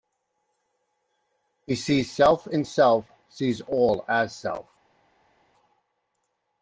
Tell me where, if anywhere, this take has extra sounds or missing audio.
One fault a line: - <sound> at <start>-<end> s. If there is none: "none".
none